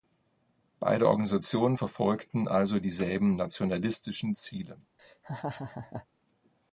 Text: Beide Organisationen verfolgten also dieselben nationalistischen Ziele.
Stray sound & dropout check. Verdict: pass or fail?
fail